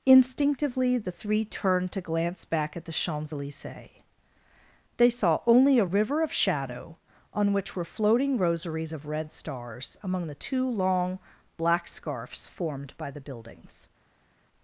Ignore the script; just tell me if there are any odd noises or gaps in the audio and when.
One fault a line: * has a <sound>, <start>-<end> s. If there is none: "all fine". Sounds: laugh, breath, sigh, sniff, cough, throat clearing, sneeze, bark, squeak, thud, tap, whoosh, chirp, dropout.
all fine